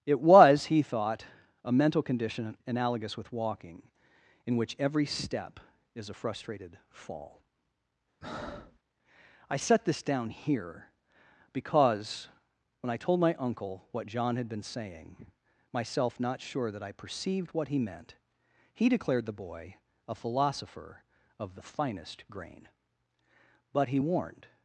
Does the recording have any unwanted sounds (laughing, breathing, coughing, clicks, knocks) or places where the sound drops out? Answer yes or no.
yes